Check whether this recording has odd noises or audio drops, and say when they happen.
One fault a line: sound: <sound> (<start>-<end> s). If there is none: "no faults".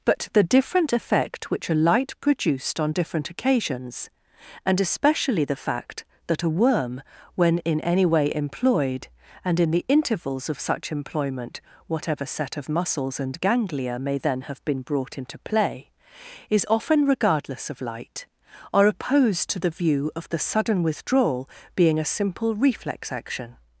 no faults